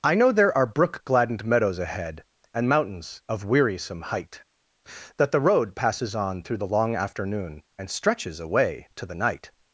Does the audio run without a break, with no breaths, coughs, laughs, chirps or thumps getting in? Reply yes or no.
yes